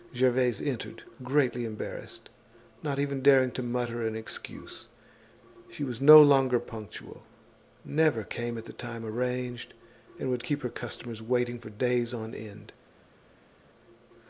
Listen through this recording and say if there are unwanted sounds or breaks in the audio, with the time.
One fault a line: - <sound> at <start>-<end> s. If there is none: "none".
none